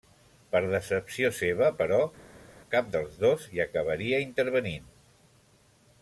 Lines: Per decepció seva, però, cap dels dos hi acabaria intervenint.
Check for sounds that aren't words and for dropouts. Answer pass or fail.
pass